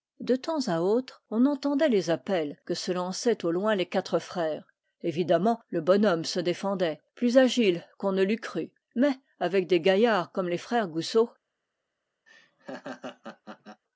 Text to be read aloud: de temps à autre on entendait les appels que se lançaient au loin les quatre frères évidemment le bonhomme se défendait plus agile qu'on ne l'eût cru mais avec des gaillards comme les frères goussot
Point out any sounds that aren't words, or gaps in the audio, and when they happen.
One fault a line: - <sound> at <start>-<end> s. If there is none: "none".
- laugh at 12.3-13.8 s